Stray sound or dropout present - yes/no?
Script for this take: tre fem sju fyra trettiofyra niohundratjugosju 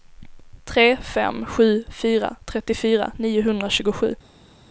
no